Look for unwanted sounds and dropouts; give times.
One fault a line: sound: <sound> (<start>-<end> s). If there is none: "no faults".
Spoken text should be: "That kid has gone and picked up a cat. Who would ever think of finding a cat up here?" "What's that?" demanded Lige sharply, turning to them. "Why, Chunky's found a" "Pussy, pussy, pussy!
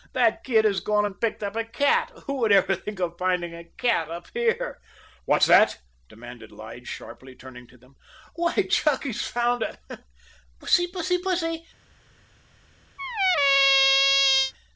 sound: squeak (13.0-14.5 s)